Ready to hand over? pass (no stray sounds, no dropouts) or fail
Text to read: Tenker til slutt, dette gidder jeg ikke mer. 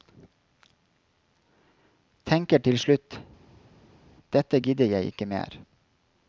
pass